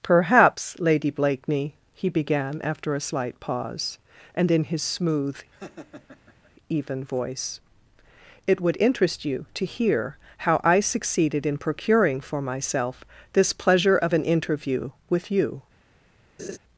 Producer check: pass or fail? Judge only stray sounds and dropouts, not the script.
fail